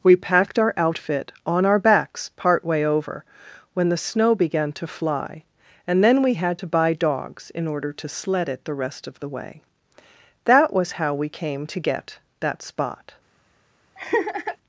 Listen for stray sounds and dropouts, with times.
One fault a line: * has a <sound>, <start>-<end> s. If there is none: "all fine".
* has a laugh, 14.0-14.6 s